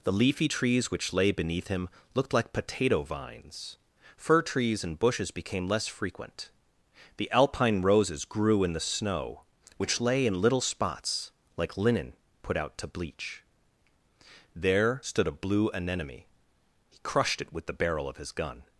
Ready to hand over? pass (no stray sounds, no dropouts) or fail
pass